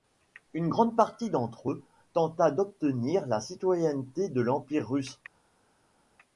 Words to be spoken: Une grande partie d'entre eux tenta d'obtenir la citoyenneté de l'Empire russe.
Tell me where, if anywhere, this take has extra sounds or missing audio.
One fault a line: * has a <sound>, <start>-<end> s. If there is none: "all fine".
all fine